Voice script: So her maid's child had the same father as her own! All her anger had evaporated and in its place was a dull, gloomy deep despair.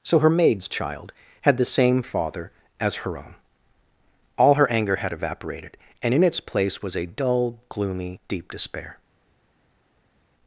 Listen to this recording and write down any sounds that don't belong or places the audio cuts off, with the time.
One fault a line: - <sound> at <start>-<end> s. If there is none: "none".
none